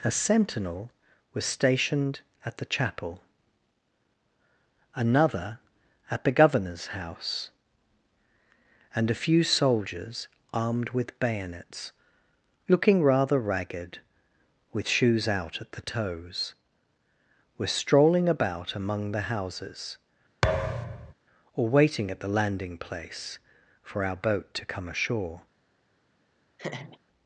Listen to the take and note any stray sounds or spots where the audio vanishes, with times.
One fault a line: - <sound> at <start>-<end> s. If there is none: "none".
- thud at 20.4-21.1 s
- laugh at 26.6-27.0 s